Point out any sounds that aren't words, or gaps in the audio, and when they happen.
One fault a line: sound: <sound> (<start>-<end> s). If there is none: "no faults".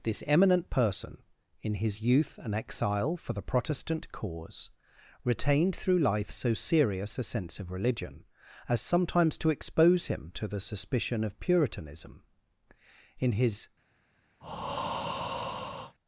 sound: breath (14.4-16.0 s)